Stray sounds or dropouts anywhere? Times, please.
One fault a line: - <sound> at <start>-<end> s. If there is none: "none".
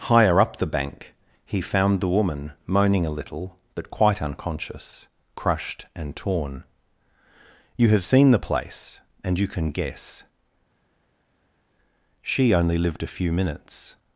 none